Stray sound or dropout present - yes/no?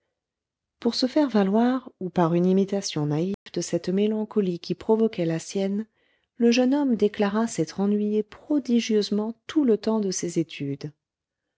yes